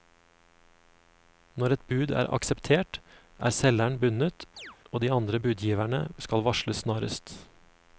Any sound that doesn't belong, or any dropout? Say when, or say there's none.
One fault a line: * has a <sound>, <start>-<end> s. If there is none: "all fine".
* has a chirp, 4.6-4.8 s